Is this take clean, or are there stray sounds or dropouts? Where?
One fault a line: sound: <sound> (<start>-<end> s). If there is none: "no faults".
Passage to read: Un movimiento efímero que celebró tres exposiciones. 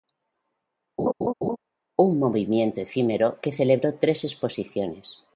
sound: laugh (1.0-1.6 s)